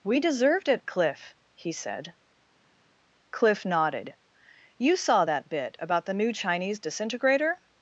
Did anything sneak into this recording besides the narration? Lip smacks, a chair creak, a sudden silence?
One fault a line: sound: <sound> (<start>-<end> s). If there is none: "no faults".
no faults